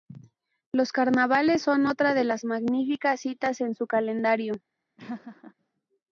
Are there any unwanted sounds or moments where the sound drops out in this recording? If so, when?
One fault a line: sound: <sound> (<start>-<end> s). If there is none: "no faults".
sound: laugh (5.0-5.5 s)